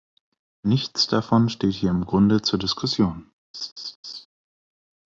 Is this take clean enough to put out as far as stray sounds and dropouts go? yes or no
no